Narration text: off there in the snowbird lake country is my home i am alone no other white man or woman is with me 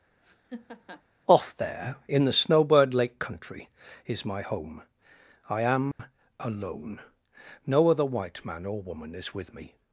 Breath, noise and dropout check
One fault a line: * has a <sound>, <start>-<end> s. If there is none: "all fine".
* has a laugh, 0.2-1.0 s
* has a dropout, 5.9-6.0 s